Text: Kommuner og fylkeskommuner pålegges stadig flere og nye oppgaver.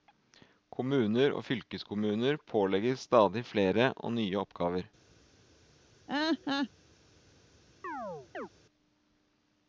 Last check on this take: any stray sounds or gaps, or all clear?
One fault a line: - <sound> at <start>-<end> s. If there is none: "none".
- laugh at 6.1-6.7 s
- chirp at 7.8-8.5 s